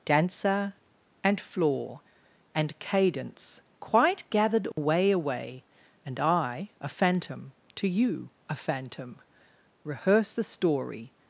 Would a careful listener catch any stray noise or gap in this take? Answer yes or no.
yes